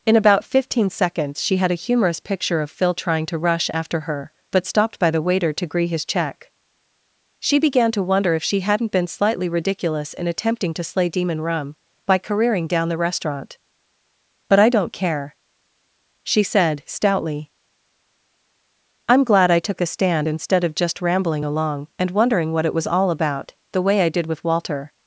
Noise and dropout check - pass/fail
pass